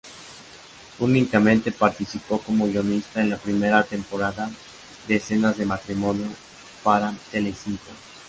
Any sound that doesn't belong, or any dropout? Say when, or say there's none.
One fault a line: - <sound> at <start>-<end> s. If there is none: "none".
none